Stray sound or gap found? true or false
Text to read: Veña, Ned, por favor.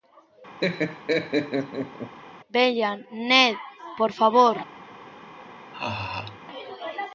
true